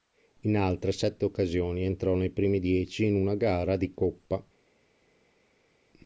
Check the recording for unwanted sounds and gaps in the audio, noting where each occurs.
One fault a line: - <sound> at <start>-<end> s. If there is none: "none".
none